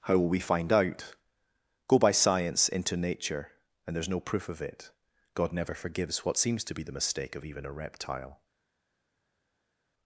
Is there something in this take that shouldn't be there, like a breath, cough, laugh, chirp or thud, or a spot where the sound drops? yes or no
no